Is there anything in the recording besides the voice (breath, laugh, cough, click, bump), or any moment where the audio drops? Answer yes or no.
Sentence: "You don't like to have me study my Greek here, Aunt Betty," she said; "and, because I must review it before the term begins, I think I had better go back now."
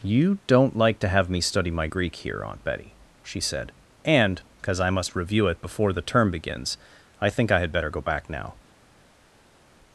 no